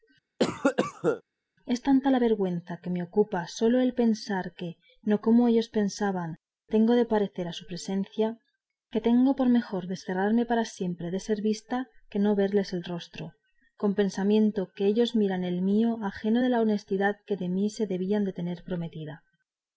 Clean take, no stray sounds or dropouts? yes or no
no